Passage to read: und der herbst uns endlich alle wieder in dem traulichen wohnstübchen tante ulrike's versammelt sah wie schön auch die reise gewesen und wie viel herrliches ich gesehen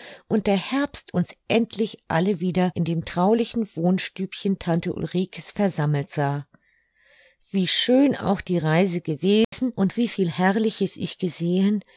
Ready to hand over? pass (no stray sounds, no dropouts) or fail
fail